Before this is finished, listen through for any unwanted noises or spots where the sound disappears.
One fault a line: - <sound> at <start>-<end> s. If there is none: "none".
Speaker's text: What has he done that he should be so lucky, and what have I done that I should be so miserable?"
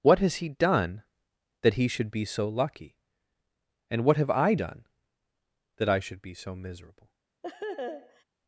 - laugh at 7.4-8.2 s